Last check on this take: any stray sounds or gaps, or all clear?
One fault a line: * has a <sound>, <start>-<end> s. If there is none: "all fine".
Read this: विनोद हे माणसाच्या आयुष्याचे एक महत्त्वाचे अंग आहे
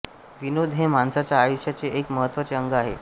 all fine